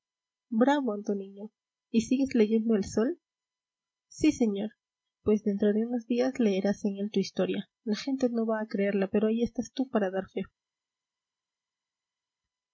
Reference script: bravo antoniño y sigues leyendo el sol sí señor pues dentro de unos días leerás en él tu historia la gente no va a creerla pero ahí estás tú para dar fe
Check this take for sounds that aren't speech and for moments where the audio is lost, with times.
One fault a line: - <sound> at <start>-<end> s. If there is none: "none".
none